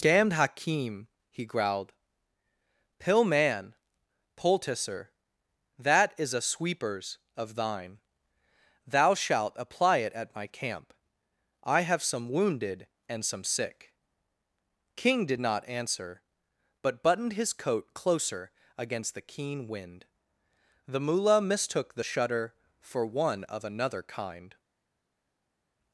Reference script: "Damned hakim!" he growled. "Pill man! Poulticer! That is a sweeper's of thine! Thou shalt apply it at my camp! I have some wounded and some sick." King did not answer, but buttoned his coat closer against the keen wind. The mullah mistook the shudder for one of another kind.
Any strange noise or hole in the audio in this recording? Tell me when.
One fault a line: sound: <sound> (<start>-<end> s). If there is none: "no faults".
no faults